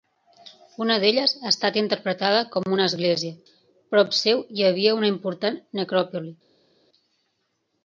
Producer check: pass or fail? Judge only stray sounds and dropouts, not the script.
pass